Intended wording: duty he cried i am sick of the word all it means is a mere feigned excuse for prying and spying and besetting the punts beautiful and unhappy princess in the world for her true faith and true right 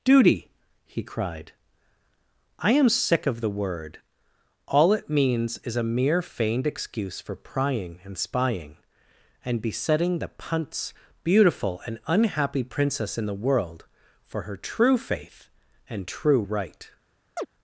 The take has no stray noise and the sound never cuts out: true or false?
false